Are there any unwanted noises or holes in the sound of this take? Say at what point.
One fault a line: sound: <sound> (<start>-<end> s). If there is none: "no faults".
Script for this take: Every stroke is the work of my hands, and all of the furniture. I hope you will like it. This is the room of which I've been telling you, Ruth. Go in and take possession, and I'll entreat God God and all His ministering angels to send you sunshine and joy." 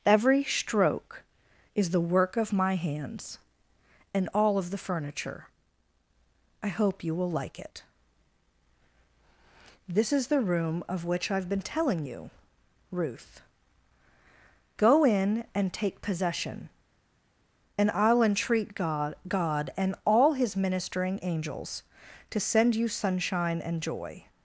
no faults